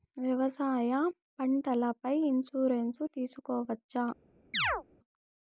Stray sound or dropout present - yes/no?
yes